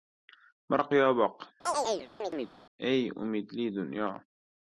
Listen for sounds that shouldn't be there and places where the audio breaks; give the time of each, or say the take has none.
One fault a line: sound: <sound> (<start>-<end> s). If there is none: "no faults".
sound: chirp (1.7-2.5 s)